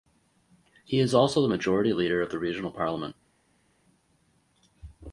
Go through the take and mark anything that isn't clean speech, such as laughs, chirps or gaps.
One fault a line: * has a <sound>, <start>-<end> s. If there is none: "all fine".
all fine